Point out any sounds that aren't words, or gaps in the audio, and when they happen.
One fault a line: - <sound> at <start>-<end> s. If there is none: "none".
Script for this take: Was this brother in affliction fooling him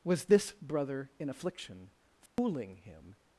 - dropout at 2.3-2.4 s